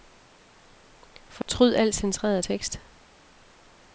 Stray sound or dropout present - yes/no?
yes